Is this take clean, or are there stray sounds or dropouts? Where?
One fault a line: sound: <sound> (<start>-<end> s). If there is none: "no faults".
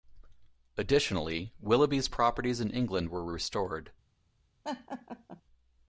sound: laugh (4.6-5.4 s)